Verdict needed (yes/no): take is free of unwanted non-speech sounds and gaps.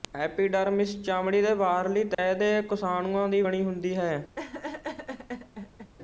no